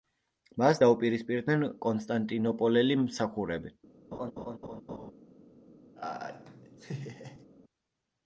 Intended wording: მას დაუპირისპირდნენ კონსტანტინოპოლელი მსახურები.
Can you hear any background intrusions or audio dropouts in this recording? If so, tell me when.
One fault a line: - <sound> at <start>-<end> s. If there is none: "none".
- laugh at 4.1-5.1 s
- laugh at 6.0-7.5 s